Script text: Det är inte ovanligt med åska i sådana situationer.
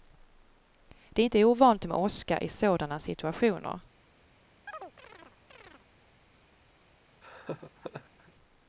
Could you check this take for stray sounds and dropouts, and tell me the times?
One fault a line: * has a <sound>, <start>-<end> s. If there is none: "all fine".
* has a chirp, 4.7-5.9 s
* has a laugh, 7.2-8.3 s